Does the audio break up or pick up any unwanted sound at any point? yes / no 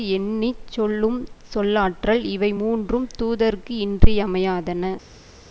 no